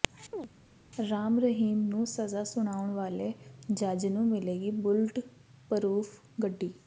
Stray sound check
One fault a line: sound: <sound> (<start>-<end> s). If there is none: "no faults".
sound: chirp (0.3-0.5 s)